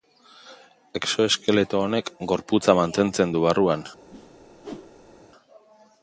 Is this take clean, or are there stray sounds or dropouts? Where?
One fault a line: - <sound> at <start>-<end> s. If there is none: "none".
- whoosh at 4.1-5.2 s